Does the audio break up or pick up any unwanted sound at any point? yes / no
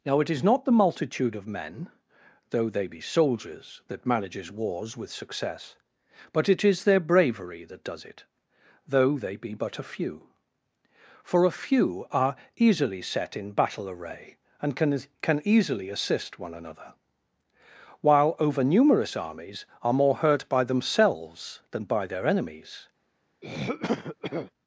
yes